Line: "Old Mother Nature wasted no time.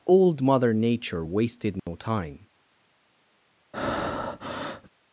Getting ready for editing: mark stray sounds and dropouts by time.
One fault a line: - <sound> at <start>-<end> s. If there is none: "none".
- dropout at 1.8-1.9 s
- breath at 3.7-4.9 s